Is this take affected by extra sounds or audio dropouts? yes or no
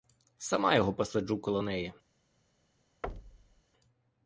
yes